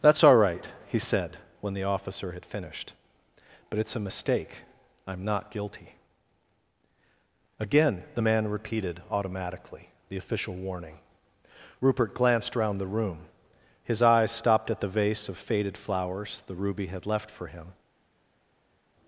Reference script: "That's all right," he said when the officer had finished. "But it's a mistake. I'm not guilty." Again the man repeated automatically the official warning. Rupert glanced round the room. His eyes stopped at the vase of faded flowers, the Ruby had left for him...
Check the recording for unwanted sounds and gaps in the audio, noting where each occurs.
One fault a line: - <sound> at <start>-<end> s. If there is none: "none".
none